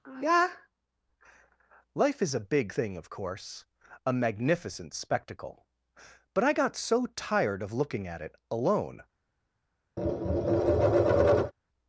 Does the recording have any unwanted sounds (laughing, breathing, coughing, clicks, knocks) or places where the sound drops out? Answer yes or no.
yes